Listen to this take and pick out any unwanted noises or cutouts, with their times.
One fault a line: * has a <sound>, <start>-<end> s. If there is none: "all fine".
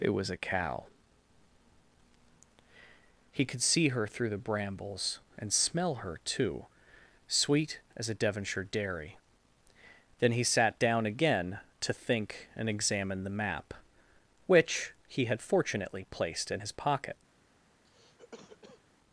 * has a cough, 17.8-18.8 s